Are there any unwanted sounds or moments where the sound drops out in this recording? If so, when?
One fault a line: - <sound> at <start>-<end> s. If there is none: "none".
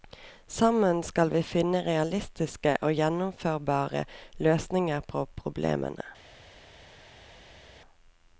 none